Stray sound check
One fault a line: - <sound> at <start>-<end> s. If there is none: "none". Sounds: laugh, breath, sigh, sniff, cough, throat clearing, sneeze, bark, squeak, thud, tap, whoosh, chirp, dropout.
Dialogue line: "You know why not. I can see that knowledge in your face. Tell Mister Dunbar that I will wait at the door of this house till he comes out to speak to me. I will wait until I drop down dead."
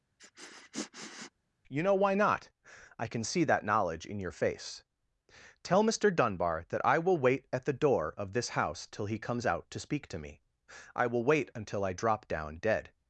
- sniff at 0.2-1.3 s